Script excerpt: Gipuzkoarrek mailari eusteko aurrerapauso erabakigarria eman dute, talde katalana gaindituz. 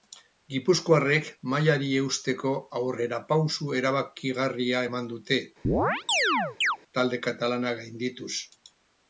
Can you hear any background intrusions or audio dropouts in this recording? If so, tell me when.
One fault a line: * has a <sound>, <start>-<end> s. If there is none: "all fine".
* has a chirp, 5.6-6.8 s